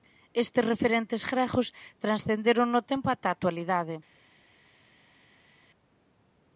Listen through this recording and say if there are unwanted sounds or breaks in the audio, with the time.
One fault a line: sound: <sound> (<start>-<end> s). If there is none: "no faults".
no faults